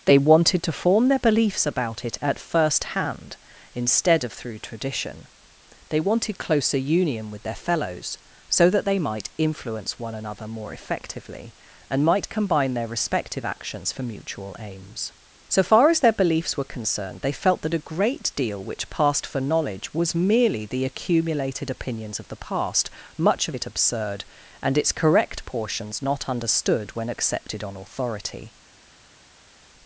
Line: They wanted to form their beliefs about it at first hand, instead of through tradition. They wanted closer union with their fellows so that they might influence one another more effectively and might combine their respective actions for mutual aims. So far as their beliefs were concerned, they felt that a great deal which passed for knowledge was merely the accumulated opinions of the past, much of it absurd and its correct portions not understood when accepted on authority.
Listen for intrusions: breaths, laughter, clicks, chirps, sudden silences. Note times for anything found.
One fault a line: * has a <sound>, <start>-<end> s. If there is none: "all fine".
all fine